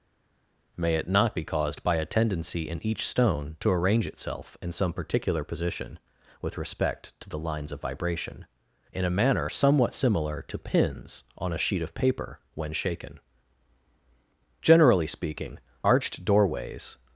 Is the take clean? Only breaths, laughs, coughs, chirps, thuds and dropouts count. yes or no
yes